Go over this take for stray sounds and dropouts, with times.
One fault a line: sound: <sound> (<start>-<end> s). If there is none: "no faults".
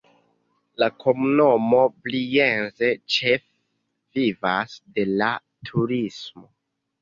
no faults